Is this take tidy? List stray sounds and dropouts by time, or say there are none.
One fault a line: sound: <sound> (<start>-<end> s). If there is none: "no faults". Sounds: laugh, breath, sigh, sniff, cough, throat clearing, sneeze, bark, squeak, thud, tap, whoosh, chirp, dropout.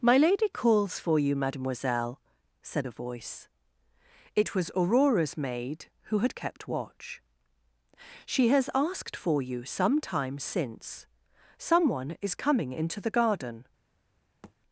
sound: thud (14.4-14.6 s)